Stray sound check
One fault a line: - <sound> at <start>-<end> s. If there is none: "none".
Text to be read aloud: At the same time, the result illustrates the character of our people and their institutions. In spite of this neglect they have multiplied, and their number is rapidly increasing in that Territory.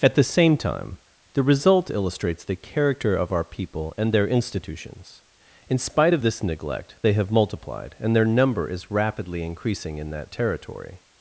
none